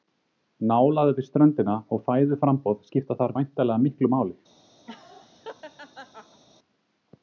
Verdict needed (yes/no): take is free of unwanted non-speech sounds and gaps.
no